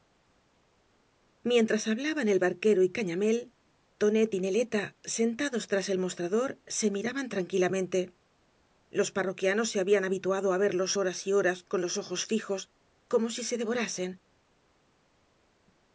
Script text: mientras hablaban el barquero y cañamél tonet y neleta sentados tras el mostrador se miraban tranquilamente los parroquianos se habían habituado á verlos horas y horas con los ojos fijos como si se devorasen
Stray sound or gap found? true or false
false